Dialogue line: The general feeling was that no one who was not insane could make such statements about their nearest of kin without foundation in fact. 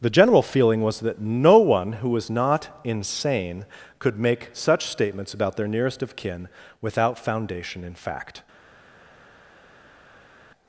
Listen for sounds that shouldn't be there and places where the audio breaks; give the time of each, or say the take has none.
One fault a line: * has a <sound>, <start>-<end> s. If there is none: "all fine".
all fine